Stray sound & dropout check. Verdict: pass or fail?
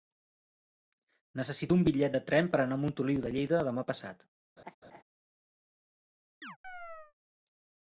fail